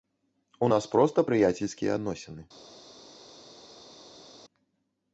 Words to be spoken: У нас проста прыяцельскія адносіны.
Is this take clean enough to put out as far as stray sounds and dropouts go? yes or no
yes